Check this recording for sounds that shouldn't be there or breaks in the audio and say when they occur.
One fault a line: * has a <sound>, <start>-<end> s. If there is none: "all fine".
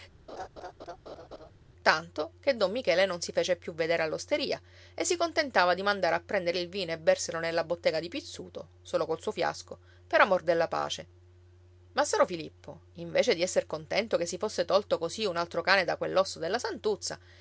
* has a laugh, 0.3-1.5 s